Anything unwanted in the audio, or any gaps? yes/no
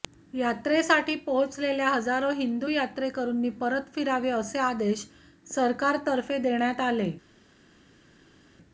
no